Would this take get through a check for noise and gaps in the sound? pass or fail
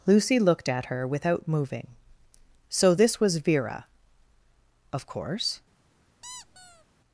fail